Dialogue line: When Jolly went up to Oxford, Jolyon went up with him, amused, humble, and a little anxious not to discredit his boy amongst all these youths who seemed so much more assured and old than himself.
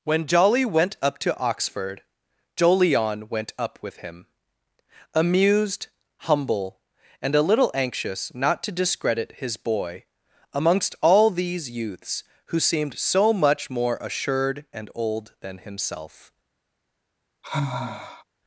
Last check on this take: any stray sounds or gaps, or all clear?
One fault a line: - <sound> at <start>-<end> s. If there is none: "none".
- sigh at 17.4-18.2 s